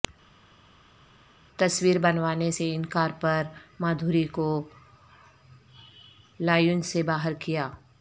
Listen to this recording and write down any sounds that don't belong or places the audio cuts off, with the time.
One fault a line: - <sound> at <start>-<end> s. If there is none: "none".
none